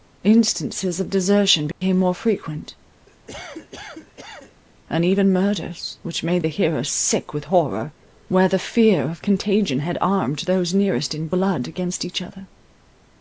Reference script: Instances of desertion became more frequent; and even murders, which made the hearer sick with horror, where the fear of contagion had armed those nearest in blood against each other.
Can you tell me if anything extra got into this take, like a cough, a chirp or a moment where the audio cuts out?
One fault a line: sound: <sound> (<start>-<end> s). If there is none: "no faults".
sound: dropout (1.7-1.8 s)
sound: cough (3.1-4.6 s)